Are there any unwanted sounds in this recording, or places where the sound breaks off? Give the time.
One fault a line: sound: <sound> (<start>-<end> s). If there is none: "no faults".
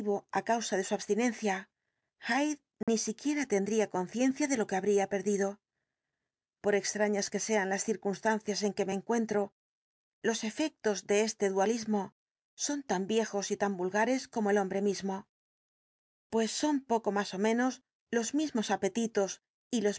sound: dropout (2.8-2.9 s)